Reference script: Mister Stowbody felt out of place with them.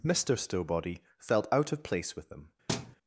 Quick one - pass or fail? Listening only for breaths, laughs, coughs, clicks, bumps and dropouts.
fail